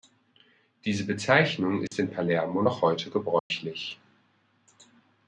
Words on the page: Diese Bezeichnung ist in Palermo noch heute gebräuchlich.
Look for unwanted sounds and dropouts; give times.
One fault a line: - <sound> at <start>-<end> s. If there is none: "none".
- dropout at 1.9-1.9 s
- dropout at 3.4-3.5 s